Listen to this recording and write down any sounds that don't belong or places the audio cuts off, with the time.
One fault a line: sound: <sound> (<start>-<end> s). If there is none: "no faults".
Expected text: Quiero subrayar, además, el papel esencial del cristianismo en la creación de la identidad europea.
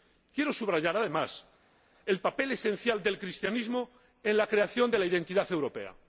no faults